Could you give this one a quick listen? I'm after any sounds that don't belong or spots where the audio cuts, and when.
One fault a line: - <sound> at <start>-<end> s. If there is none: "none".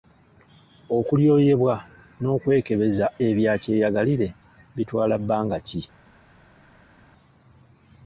none